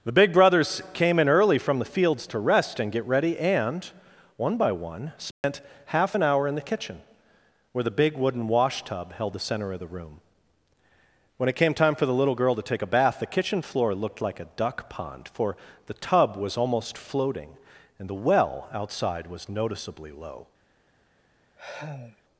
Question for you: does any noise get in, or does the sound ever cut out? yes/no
yes